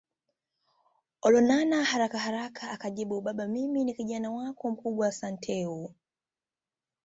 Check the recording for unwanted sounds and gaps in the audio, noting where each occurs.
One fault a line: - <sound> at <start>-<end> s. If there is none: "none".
none